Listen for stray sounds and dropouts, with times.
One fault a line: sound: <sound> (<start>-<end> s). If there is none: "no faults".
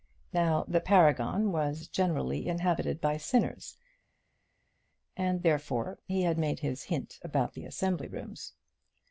no faults